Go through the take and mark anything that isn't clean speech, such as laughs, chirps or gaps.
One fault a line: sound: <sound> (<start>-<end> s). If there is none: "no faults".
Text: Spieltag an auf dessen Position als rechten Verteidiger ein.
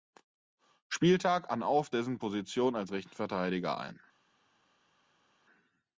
no faults